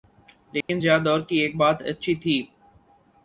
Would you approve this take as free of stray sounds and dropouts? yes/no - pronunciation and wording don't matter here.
no